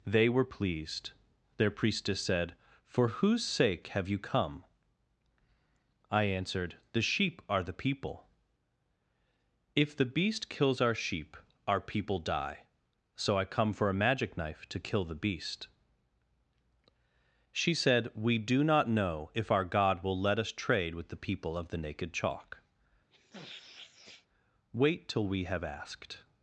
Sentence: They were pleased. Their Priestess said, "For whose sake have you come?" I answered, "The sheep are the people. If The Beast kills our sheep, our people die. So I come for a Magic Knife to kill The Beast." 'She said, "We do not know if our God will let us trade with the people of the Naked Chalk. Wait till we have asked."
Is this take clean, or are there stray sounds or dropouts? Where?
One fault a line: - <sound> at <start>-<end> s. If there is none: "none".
- sniff at 23.1-24.3 s